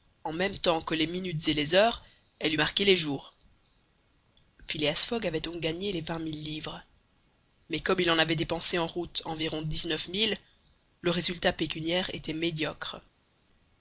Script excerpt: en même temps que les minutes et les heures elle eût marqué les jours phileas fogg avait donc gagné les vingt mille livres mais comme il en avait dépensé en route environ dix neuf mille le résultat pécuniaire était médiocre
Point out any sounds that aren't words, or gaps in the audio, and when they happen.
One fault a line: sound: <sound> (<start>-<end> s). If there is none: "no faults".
no faults